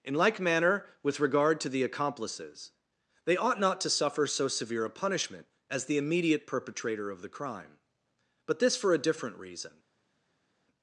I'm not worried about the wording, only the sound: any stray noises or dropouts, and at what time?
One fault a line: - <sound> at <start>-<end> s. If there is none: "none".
none